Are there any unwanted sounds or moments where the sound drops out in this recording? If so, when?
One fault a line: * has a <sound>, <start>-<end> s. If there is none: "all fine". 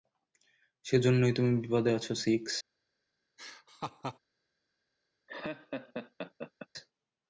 * has a laugh, 3.4-4.2 s
* has a laugh, 5.3-6.7 s